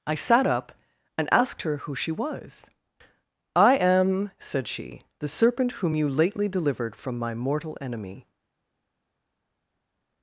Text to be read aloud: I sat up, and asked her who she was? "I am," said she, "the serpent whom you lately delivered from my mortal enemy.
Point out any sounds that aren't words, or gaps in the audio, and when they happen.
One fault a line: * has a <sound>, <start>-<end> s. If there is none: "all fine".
all fine